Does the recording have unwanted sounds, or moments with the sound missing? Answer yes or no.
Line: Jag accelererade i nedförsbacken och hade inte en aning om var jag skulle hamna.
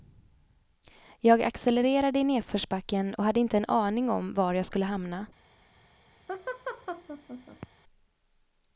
yes